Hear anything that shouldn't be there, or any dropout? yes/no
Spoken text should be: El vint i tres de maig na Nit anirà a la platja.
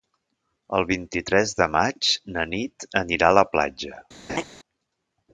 yes